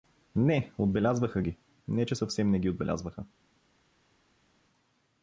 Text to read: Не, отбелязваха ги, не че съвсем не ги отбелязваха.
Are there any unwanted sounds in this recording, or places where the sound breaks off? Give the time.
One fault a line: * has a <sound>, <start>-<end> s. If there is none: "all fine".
all fine